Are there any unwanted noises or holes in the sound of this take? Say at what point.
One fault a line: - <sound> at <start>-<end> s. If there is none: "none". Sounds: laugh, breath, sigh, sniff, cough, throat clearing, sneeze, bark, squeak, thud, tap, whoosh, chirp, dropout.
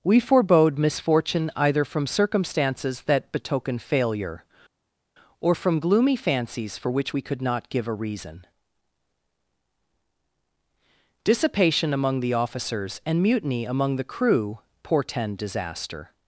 none